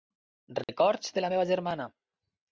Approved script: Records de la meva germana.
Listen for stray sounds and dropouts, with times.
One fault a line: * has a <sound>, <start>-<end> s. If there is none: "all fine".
* has a dropout, 0.6-0.7 s